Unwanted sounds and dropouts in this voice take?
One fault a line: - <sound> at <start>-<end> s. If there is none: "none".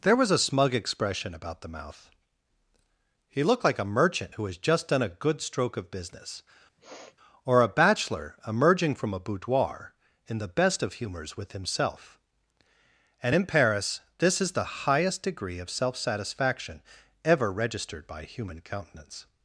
- sniff at 6.8-7.2 s